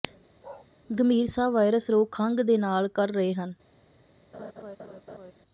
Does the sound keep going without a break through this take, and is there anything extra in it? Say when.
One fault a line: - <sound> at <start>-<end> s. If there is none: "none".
- bark at 0.4-0.7 s
- laugh at 4.3-5.3 s